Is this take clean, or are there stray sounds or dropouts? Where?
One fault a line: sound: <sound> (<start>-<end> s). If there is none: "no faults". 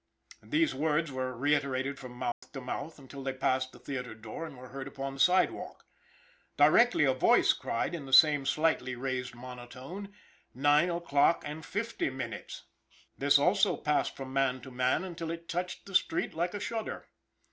sound: dropout (2.3-2.4 s)